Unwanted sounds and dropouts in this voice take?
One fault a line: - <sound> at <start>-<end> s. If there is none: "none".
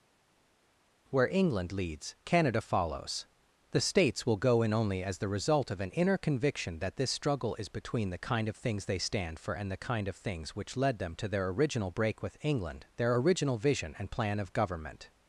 none